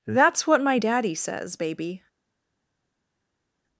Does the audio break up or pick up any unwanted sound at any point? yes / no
no